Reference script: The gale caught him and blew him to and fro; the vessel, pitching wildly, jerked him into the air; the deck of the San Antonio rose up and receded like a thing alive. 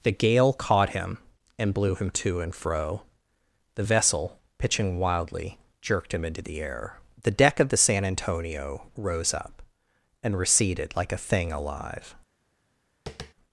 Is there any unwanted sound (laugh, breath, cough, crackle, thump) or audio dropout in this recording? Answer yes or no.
yes